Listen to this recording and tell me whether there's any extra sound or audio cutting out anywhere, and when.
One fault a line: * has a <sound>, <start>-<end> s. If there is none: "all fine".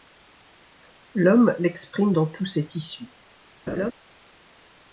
* has a laugh, 3.7-3.9 s